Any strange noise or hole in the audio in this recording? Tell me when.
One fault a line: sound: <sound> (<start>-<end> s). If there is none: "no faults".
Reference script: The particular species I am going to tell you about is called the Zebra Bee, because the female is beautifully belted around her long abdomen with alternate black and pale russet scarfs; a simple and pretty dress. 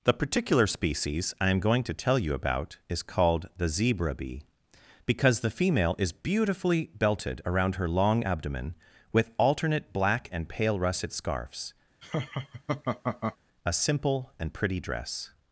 sound: laugh (12.0-13.4 s)